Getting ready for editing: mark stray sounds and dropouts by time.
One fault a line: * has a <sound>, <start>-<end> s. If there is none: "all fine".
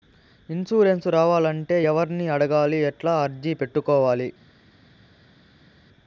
all fine